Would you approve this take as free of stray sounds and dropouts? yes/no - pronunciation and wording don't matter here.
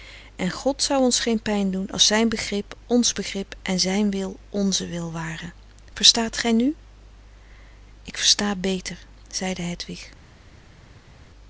yes